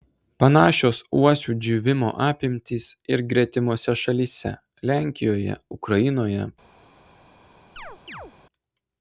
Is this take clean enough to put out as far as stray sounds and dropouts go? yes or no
no